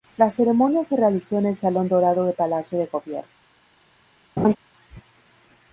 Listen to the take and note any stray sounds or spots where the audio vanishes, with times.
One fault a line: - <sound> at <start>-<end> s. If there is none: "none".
- laugh at 4.4-4.6 s